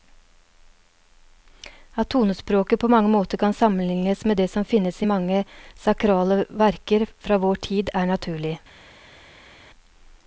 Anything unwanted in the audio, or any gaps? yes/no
no